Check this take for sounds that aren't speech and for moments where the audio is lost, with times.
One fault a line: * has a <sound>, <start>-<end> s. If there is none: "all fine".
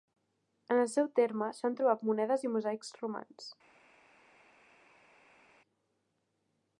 all fine